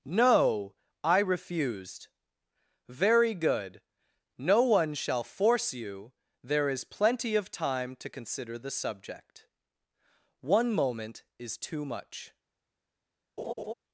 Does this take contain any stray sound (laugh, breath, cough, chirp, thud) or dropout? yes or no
yes